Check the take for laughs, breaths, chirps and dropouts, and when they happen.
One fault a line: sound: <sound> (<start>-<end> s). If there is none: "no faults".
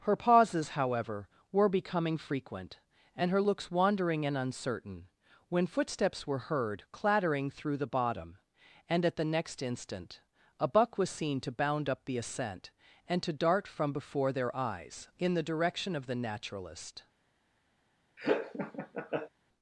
sound: laugh (18.2-19.3 s)